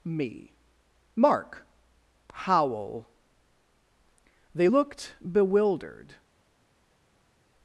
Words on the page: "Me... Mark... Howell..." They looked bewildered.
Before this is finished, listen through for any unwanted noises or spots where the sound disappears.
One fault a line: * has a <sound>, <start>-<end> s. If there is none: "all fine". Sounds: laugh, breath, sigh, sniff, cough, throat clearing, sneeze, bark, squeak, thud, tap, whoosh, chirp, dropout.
all fine